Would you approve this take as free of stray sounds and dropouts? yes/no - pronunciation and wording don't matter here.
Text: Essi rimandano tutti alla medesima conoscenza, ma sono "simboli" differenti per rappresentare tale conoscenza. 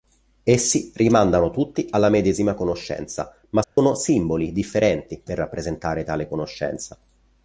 no